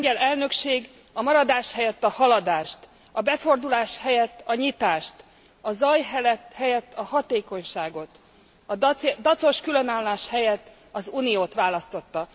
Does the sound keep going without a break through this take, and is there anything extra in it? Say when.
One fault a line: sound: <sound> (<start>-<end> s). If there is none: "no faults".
no faults